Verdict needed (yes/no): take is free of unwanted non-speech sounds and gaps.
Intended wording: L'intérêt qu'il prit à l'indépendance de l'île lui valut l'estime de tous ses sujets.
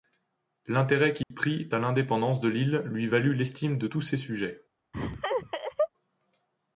no